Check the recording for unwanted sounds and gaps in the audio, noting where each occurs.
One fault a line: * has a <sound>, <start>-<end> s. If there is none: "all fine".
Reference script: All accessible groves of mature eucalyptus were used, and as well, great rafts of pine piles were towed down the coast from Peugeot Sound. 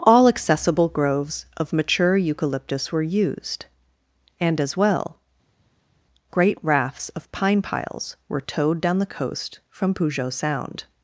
all fine